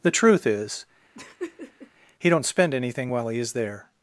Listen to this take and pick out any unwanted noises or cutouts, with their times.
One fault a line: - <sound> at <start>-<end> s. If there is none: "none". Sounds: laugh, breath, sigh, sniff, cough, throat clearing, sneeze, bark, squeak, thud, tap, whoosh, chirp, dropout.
- laugh at 1.1-1.9 s